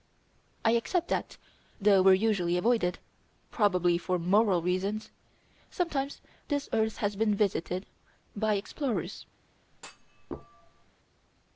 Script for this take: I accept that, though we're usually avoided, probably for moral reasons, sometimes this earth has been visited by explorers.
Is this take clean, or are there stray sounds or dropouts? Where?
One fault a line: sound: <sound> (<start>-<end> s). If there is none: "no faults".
sound: thud (9.7-10.9 s)